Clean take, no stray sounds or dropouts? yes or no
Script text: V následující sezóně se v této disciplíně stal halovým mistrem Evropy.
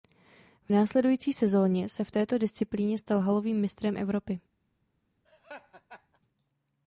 no